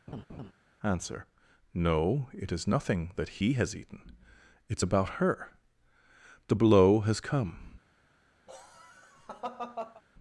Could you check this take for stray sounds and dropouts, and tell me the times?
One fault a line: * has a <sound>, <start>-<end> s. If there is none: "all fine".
* has a laugh, 0.1-0.5 s
* has a laugh, 8.5-10.0 s